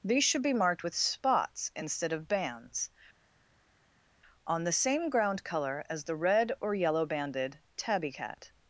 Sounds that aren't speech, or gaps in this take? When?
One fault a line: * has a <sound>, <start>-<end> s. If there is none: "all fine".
all fine